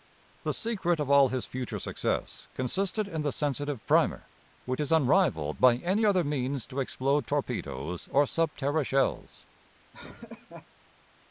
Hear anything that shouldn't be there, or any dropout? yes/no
yes